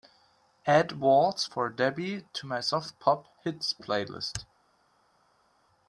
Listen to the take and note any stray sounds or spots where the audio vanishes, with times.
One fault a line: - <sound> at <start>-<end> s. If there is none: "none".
none